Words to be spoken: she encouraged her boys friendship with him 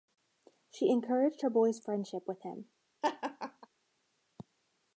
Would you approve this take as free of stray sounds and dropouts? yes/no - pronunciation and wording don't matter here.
no